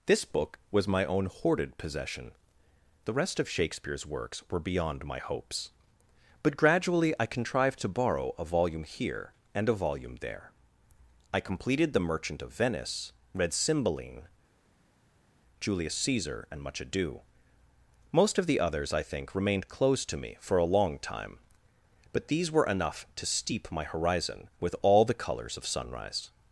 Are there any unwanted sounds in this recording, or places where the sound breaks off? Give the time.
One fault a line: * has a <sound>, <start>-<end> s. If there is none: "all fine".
all fine